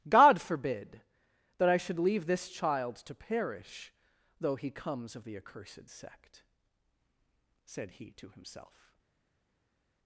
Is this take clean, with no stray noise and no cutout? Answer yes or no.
yes